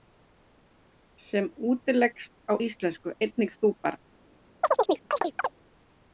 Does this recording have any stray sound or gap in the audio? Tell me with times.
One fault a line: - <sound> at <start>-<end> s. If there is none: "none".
- chirp at 4.6-5.5 s